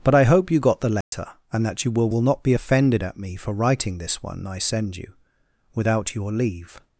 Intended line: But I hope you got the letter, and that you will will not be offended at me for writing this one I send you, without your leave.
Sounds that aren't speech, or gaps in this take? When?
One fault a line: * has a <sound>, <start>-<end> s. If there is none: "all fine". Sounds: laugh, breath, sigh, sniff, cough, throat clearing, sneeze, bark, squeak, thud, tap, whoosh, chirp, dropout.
* has a dropout, 1.0-1.1 s